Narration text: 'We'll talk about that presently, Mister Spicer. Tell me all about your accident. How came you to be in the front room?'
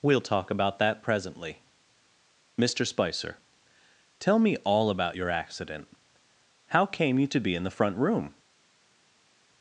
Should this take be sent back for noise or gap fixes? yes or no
no